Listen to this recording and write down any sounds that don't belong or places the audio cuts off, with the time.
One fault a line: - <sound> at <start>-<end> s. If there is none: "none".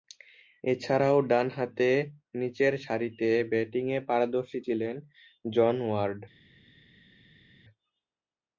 none